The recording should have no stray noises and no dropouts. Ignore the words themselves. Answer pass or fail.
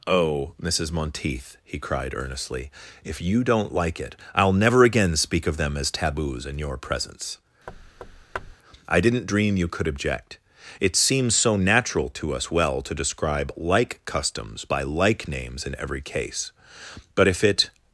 fail